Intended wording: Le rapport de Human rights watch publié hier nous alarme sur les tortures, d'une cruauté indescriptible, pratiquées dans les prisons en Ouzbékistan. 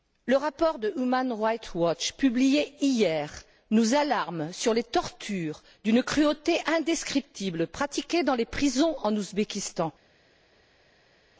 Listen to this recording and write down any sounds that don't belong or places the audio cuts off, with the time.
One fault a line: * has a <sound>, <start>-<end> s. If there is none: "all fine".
all fine